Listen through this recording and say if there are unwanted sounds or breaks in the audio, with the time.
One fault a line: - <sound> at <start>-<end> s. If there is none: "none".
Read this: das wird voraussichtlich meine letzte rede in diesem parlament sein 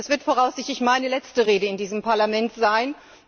none